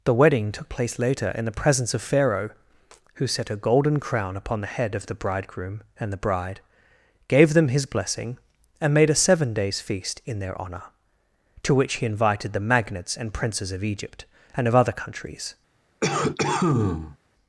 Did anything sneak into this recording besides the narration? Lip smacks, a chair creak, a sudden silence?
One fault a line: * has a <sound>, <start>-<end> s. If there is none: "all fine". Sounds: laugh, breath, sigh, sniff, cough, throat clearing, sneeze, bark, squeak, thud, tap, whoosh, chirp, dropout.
* has a cough, 16.0-17.2 s